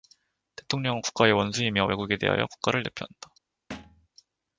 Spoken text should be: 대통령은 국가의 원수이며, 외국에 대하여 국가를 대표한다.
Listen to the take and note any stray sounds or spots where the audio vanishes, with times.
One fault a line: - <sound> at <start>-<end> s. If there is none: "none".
- thud at 3.7-4.1 s